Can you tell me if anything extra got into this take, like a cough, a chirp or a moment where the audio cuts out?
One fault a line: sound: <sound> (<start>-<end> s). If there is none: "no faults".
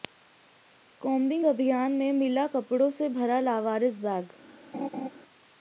sound: laugh (4.7-5.1 s)